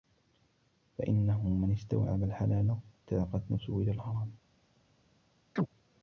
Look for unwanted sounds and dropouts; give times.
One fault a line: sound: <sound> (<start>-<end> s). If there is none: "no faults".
sound: chirp (5.6-5.7 s)